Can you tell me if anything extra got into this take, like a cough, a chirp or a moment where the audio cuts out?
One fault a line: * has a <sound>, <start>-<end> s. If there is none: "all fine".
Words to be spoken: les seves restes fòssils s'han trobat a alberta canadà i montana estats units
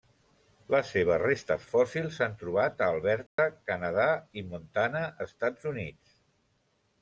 * has a dropout, 3.3-3.4 s